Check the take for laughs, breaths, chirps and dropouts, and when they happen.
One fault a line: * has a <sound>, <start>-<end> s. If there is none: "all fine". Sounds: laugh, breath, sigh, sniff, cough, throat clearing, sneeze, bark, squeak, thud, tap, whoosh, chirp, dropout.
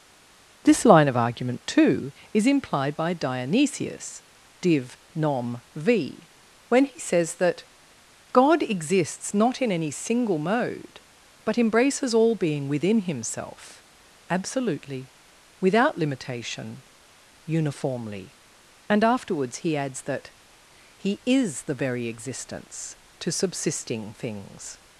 all fine